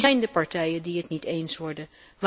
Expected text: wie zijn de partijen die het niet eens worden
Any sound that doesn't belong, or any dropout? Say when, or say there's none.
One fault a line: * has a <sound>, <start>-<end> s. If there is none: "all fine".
all fine